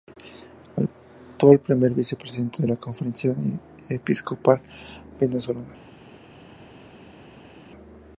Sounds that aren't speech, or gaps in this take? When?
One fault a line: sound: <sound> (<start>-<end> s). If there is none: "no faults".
no faults